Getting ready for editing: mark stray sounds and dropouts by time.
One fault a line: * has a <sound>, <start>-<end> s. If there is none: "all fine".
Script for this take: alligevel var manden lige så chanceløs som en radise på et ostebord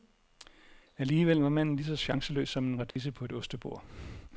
* has a dropout, 2.9-3.0 s